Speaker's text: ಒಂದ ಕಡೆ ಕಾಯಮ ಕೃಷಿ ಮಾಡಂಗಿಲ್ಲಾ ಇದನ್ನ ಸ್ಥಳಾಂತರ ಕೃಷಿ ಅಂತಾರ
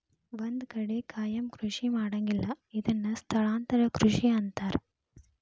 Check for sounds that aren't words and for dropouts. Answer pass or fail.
pass